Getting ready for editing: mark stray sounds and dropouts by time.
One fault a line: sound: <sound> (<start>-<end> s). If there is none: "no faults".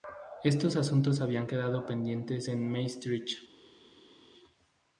no faults